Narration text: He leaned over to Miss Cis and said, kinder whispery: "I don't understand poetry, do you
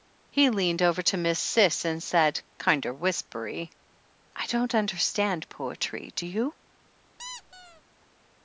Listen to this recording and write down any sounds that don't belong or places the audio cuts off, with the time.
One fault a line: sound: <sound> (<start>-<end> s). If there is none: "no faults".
sound: squeak (7.2-7.8 s)